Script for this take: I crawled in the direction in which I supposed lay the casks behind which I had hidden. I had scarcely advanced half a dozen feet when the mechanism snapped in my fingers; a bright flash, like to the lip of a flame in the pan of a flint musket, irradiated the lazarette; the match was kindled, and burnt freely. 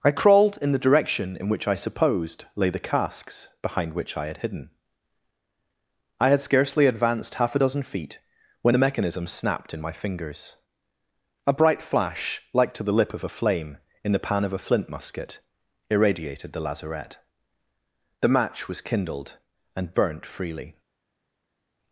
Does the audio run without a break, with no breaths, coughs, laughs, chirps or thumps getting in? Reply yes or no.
yes